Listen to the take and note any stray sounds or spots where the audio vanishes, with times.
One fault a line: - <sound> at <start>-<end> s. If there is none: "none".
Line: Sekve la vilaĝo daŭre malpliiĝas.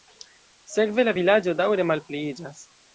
none